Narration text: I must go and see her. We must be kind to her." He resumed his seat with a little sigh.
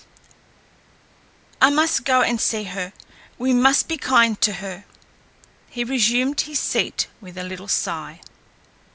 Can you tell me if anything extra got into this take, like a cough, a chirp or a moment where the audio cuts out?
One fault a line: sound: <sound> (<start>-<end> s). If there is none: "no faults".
no faults